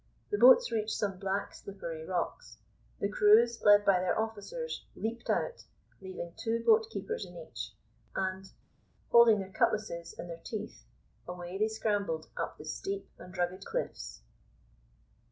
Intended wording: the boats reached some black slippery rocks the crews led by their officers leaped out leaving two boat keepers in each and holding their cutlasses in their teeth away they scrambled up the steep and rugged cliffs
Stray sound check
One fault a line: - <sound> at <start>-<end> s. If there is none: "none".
none